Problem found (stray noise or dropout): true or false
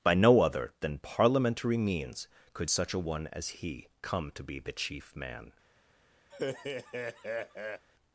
true